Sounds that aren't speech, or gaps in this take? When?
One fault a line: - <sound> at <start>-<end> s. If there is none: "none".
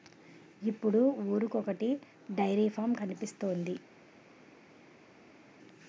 none